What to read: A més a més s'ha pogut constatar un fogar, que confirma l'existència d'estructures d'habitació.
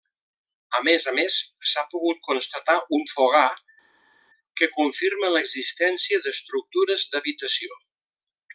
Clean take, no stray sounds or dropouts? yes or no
yes